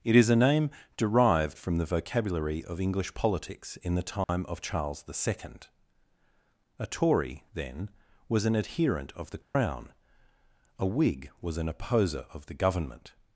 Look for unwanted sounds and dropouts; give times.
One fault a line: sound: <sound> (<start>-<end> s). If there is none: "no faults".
sound: dropout (4.2-4.3 s)
sound: dropout (9.4-9.6 s)